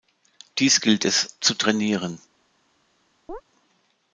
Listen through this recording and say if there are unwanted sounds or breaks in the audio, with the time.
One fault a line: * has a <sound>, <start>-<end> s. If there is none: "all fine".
* has a chirp, 3.3-3.4 s